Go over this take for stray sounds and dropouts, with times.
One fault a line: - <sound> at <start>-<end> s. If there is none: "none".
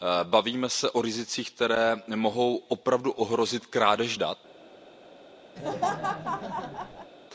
- laugh at 5.6-7.1 s